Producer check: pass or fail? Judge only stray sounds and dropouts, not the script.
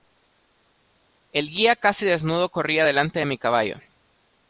pass